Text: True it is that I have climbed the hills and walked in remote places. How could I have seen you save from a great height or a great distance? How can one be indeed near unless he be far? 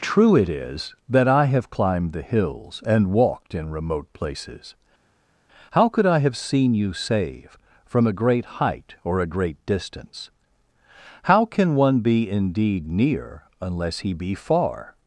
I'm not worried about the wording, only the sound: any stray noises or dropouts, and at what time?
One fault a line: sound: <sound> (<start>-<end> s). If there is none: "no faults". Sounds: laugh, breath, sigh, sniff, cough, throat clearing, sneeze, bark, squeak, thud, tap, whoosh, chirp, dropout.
no faults